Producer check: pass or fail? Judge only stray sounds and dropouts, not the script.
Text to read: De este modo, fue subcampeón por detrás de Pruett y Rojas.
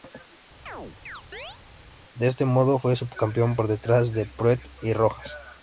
fail